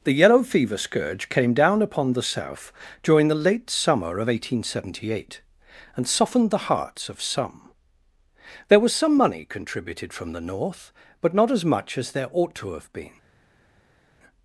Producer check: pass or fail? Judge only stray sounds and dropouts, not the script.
pass